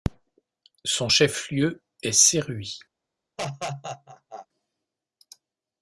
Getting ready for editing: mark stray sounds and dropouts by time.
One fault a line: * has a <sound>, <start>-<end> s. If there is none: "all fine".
* has a laugh, 3.4-4.5 s